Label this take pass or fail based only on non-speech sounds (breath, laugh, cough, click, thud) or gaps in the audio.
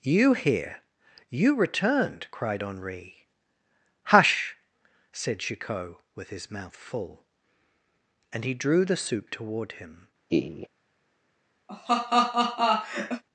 fail